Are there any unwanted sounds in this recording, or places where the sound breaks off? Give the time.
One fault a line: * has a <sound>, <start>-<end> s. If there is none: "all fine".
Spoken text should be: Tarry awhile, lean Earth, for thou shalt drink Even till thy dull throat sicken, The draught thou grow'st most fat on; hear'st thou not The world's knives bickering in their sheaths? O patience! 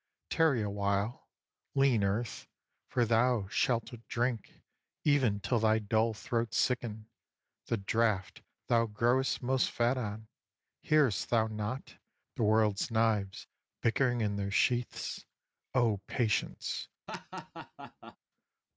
* has a laugh, 17.1-18.2 s